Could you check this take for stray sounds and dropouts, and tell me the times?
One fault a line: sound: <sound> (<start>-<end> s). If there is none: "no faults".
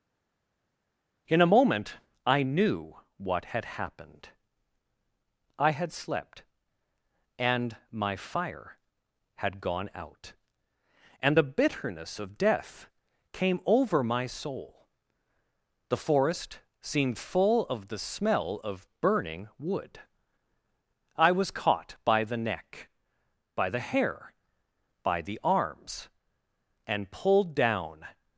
no faults